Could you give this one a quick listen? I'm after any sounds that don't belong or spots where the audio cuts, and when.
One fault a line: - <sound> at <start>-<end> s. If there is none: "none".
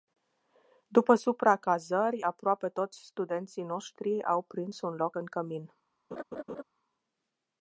- laugh at 6.1-6.6 s